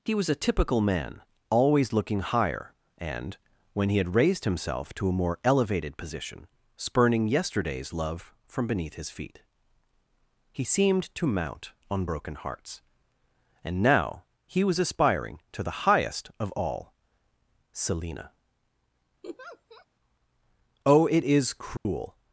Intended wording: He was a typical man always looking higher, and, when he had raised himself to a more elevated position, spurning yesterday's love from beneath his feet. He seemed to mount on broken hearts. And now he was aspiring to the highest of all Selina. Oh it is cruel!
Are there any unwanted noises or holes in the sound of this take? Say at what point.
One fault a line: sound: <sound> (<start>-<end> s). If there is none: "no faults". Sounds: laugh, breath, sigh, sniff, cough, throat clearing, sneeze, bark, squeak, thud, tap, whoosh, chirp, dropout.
sound: laugh (19.2-19.9 s)
sound: dropout (21.8-21.9 s)